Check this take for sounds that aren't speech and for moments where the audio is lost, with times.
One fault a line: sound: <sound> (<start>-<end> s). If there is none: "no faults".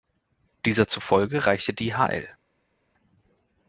no faults